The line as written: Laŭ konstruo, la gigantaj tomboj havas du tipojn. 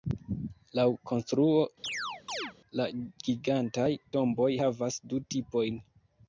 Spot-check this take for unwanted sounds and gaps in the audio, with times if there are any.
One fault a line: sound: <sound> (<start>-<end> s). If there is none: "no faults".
sound: chirp (1.8-2.5 s)